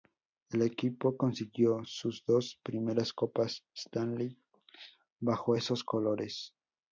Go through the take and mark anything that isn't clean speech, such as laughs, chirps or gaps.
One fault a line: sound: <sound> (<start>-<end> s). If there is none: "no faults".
no faults